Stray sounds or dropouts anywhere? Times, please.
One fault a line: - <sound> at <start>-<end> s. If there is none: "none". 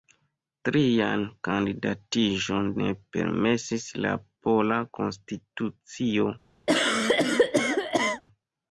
- cough at 6.7-8.2 s